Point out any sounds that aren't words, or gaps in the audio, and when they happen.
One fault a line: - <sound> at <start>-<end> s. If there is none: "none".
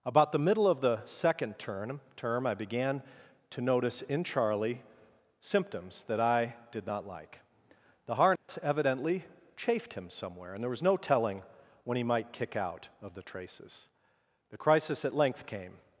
- dropout at 8.4-8.5 s